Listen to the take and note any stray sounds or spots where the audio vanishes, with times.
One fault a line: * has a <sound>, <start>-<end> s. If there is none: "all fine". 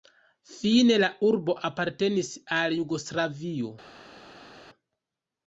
all fine